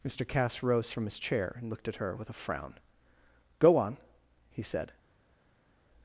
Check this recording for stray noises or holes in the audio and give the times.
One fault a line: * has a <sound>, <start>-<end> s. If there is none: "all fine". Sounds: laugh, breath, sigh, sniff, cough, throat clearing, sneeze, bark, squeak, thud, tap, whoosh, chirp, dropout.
all fine